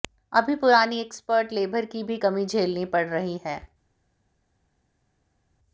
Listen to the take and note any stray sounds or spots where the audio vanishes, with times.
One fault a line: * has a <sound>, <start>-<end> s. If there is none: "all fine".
all fine